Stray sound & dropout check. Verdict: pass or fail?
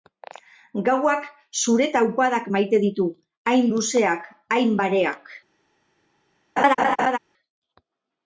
fail